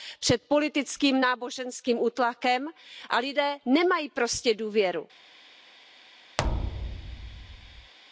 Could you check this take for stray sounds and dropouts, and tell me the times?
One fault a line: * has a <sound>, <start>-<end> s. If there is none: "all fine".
* has a thud, 6.4-7.9 s